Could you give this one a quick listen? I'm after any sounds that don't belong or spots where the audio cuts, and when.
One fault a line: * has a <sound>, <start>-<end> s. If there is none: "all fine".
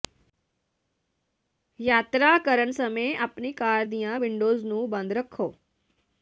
all fine